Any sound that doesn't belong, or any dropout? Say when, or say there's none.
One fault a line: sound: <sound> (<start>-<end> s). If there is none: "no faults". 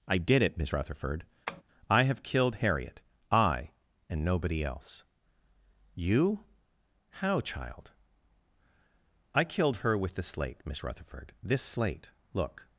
sound: tap (1.5-1.6 s)